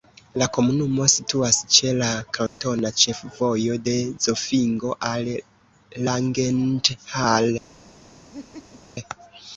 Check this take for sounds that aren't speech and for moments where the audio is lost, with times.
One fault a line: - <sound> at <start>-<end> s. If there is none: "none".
- dropout at 2.5-2.6 s
- laugh at 8.3-8.8 s